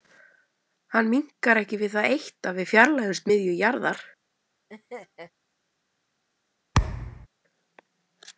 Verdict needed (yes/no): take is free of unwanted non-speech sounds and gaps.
no